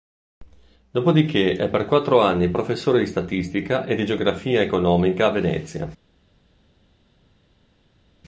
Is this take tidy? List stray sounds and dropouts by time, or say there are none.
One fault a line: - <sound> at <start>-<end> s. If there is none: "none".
none